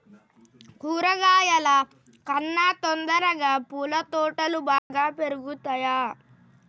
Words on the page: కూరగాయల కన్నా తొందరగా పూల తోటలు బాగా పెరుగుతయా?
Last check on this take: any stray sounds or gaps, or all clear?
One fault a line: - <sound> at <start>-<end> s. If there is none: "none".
- dropout at 4.8-4.9 s